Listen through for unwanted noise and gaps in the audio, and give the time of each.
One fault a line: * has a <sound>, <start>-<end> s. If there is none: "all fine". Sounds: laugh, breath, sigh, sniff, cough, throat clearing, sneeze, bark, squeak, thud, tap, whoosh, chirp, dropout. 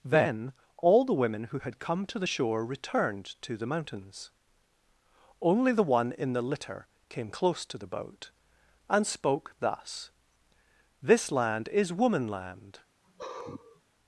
* has a sigh, 13.0-13.8 s